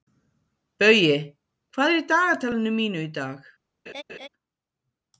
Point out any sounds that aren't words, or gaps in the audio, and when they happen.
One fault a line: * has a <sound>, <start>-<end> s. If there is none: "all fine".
* has a laugh, 3.9-4.3 s